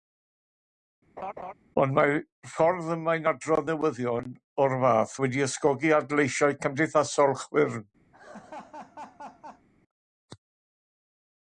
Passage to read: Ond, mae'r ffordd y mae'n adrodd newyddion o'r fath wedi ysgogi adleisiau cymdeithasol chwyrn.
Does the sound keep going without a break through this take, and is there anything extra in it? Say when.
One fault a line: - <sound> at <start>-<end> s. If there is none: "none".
- laugh at 1.2-1.5 s
- laugh at 8.1-9.7 s